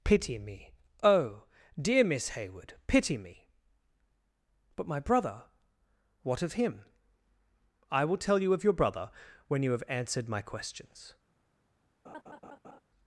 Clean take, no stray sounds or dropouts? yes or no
no